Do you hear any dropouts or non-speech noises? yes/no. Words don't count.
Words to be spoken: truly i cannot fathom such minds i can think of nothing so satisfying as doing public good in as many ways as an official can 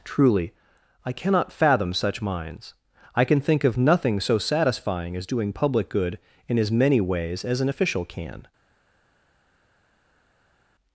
no